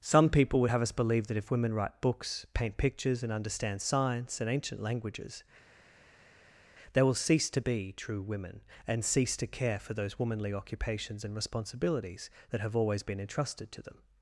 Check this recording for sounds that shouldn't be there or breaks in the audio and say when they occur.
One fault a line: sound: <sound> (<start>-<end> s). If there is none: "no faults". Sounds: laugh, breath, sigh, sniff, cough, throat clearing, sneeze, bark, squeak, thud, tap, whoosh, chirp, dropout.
no faults